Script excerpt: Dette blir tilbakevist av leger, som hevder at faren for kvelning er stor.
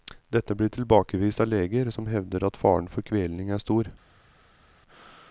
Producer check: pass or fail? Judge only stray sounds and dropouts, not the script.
pass